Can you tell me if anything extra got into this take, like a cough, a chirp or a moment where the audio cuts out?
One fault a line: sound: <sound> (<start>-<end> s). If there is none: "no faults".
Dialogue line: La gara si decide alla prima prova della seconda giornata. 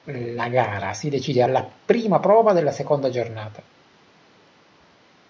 no faults